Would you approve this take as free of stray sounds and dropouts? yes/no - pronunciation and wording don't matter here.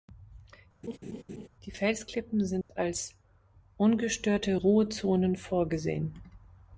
no